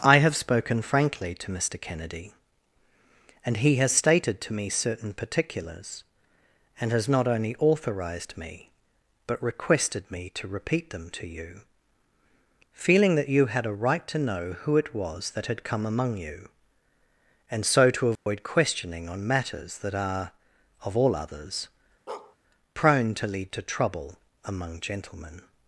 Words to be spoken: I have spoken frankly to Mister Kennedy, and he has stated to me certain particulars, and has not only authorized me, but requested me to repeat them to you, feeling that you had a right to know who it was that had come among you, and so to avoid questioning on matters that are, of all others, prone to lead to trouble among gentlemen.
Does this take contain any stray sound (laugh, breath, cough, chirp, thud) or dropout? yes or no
yes